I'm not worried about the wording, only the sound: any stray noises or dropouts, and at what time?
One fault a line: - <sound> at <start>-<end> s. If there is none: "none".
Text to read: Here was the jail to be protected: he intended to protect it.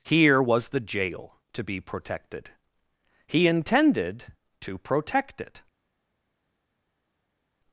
none